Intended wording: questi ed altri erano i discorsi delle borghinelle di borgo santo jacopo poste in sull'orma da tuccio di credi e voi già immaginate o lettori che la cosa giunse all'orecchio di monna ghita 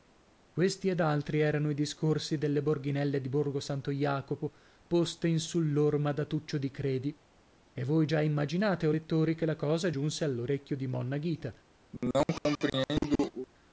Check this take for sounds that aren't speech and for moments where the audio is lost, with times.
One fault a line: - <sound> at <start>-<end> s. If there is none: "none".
- cough at 11.9-13.5 s